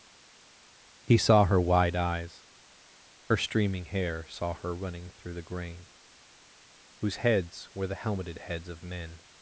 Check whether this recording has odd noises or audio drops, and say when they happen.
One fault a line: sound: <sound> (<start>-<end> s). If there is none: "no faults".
no faults